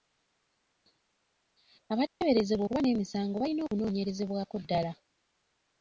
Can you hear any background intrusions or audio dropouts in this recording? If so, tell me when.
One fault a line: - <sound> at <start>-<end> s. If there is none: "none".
- dropout at 2.1-2.2 s